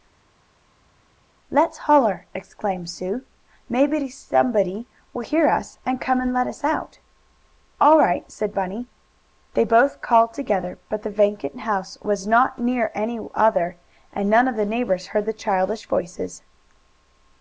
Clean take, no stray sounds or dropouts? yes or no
yes